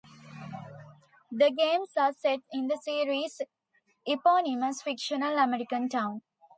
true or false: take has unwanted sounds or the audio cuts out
false